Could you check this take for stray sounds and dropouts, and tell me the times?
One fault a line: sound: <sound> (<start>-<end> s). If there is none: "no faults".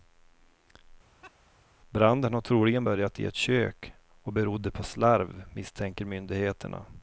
sound: laugh (1.2-1.3 s)